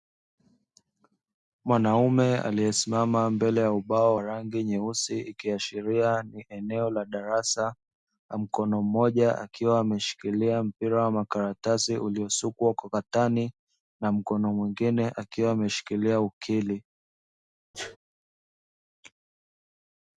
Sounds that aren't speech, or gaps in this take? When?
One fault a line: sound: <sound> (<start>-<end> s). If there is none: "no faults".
sound: sneeze (17.7-18.0 s)